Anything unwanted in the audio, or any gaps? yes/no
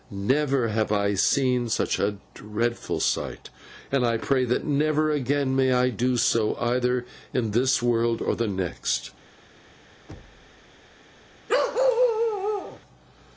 yes